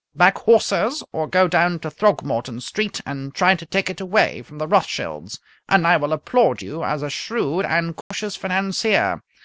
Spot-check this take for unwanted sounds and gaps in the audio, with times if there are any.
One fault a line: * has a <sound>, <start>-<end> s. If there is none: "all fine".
* has a dropout, 8.0-8.1 s